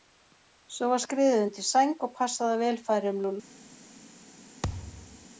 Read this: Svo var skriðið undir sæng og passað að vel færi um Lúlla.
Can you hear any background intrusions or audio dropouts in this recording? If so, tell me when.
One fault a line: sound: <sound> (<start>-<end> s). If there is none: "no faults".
sound: thud (4.6-5.3 s)